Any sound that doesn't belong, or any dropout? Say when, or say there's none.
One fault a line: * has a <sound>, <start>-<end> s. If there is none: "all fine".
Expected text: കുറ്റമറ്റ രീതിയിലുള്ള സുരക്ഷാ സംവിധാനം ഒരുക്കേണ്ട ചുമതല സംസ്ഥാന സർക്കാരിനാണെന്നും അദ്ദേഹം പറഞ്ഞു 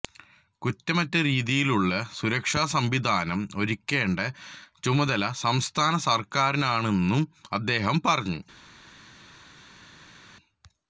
all fine